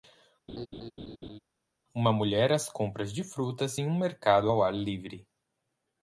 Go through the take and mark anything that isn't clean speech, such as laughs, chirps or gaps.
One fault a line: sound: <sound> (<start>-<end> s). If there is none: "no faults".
sound: laugh (0.5-1.4 s)